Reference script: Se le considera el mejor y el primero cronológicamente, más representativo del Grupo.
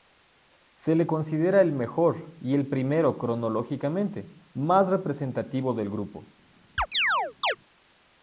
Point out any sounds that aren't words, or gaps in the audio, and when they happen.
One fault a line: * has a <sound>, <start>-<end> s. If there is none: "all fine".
* has a chirp, 6.8-7.6 s